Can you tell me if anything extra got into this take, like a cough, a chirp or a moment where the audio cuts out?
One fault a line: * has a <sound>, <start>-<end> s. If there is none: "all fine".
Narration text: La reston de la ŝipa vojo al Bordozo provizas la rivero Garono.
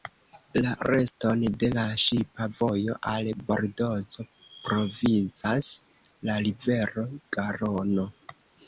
all fine